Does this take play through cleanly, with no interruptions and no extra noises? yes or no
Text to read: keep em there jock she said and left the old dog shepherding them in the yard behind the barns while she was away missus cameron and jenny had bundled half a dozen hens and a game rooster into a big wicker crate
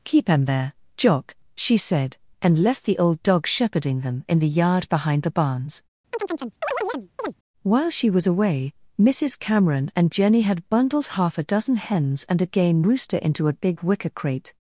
no